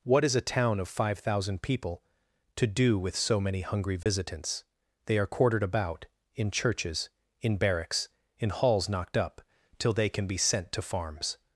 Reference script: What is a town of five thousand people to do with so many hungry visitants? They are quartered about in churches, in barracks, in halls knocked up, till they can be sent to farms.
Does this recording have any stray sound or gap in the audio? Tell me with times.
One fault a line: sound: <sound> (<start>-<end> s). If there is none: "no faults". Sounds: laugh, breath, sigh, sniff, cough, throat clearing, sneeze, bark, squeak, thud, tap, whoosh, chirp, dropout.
sound: dropout (4.0-4.1 s)